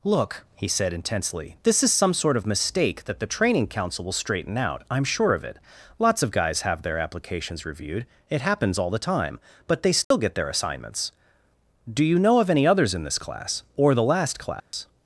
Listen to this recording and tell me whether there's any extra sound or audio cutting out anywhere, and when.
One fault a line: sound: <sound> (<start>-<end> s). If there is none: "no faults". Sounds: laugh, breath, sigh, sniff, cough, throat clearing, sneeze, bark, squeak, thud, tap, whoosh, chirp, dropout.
sound: dropout (10.0-10.1 s)
sound: dropout (14.6-14.7 s)